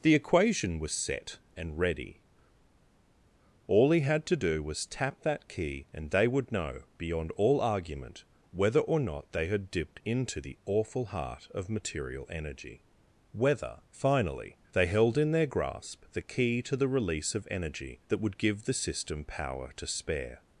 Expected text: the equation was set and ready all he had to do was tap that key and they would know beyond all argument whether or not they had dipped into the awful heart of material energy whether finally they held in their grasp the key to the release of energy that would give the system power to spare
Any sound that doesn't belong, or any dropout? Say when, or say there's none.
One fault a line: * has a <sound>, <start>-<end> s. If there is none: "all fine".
all fine